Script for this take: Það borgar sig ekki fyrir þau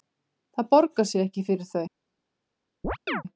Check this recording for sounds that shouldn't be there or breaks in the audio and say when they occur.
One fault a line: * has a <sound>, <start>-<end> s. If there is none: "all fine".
* has a chirp, 2.8-3.2 s